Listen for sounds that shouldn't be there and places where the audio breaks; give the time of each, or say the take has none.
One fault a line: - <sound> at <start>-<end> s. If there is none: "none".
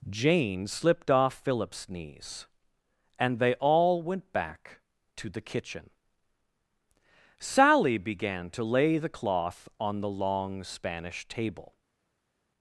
none